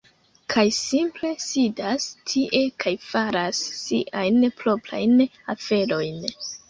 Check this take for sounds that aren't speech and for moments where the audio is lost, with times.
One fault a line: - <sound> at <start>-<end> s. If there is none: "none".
none